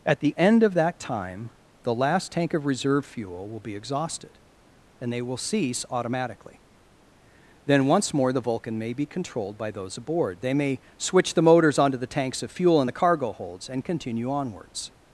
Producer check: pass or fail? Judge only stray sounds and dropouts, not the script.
pass